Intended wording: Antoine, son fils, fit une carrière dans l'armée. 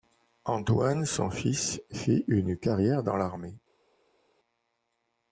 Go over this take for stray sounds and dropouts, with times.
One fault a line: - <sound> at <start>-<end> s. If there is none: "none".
none